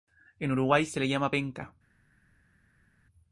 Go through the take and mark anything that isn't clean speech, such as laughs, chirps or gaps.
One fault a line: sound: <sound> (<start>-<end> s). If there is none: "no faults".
no faults